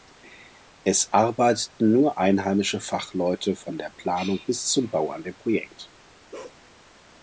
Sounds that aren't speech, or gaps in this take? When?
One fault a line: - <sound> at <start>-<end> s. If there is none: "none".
- bark at 6.3-6.6 s